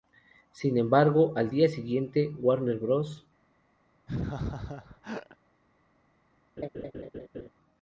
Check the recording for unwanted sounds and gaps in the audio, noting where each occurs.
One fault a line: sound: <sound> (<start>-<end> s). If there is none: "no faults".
sound: laugh (4.1-5.4 s)
sound: laugh (6.6-7.5 s)